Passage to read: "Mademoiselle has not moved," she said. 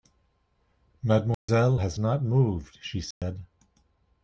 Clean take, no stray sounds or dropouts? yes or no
no